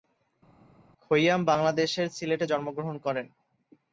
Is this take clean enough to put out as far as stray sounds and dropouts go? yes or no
yes